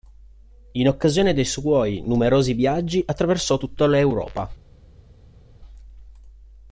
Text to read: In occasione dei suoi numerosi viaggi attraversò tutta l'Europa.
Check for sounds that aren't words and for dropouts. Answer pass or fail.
pass